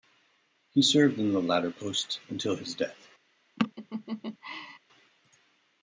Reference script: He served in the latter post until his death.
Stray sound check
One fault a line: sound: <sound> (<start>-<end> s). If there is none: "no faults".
sound: laugh (3.6-4.8 s)